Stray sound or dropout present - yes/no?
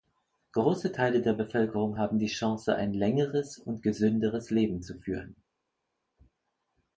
no